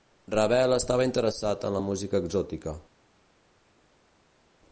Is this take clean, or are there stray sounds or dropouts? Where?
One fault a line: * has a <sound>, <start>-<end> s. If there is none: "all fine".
all fine